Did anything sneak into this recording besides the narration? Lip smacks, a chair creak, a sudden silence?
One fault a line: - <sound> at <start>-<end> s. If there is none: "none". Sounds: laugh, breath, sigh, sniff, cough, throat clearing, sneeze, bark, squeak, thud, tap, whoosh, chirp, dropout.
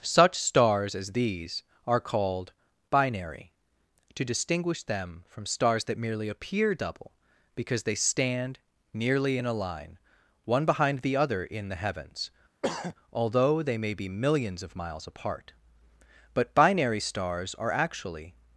- throat clearing at 12.6-12.9 s